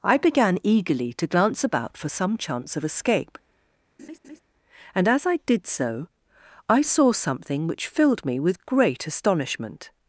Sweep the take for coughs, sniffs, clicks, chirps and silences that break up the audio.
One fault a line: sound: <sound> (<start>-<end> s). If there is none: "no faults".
sound: laugh (4.0-4.4 s)